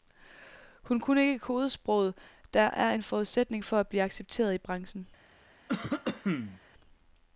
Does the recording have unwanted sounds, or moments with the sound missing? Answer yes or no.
yes